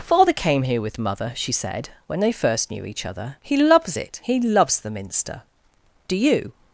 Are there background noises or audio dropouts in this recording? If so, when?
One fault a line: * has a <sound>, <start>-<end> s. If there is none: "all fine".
all fine